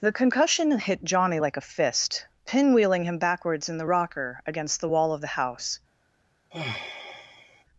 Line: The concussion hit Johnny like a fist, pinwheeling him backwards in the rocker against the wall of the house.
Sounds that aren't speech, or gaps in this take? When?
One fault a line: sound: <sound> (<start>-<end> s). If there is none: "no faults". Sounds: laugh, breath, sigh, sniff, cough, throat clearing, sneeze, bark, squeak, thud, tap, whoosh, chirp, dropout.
sound: sigh (6.5-7.6 s)